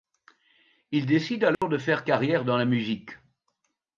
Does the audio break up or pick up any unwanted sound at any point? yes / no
yes